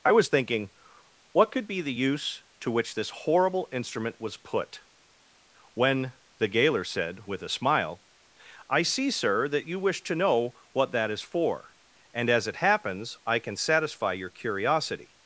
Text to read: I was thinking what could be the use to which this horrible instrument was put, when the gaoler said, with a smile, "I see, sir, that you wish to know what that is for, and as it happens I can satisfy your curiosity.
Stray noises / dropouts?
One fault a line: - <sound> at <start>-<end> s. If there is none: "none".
none